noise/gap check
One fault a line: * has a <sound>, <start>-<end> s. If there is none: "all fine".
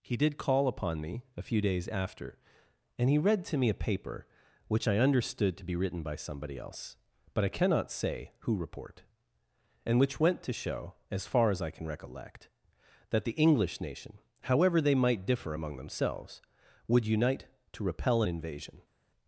all fine